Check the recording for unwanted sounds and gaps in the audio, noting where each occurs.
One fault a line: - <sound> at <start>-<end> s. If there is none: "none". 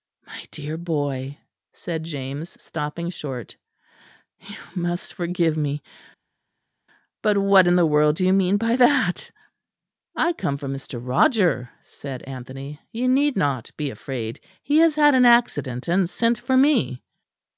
none